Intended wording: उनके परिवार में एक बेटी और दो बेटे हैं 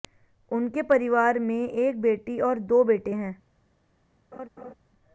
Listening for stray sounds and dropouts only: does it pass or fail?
fail